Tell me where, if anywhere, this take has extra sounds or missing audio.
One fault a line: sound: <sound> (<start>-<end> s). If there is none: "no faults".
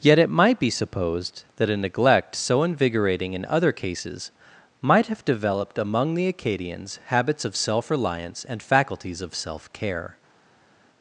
no faults